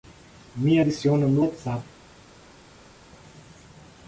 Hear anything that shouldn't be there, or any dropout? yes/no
no